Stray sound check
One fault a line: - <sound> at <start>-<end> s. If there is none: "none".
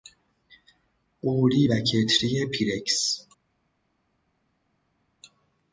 none